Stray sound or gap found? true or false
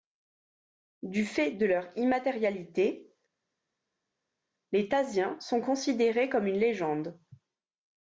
false